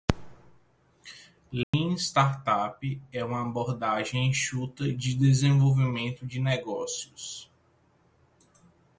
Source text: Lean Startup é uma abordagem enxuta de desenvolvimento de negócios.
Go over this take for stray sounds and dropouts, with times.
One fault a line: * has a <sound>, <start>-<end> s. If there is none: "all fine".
* has a dropout, 1.6-1.7 s